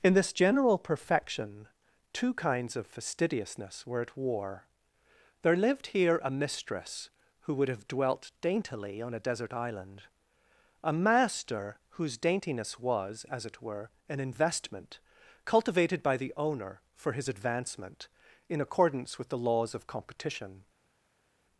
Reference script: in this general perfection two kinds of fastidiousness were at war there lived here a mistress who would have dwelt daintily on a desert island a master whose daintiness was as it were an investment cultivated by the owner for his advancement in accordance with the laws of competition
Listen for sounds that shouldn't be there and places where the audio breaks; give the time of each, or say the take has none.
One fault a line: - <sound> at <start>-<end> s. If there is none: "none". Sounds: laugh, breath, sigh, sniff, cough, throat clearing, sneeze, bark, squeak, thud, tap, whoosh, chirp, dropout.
none